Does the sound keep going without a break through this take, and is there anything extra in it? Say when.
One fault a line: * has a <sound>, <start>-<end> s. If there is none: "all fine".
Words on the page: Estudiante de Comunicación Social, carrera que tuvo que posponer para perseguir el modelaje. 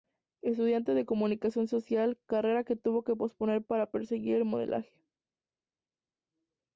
all fine